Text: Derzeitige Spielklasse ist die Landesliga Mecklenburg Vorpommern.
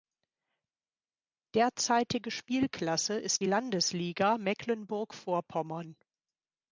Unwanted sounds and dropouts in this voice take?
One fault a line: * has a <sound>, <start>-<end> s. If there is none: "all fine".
all fine